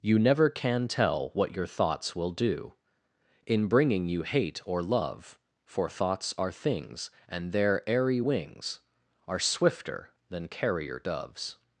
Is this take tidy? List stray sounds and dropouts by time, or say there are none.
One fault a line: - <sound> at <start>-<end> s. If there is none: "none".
none